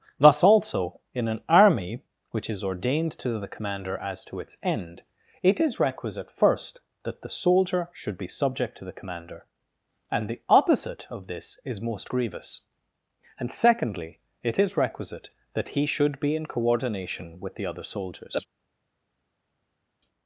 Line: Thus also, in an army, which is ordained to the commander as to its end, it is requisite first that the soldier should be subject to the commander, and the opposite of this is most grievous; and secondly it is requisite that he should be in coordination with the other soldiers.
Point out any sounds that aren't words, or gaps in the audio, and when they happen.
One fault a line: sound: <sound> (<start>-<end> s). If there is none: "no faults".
no faults